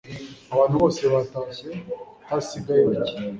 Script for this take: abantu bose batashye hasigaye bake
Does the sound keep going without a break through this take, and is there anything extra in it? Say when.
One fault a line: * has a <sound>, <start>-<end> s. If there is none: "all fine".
all fine